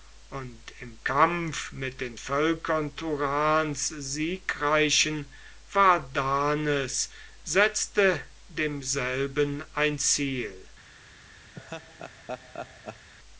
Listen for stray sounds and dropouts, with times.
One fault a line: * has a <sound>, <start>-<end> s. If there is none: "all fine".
* has a laugh, 11.5-13.1 s